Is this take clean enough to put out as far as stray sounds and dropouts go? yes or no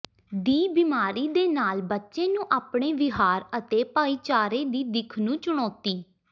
yes